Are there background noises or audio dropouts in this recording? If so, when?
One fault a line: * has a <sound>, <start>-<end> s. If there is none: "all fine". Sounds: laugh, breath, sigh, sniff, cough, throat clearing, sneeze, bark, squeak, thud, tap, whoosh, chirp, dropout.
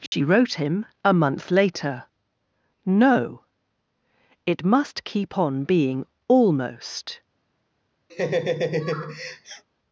* has a dropout, 0.1-0.1 s
* has a laugh, 8.1-9.6 s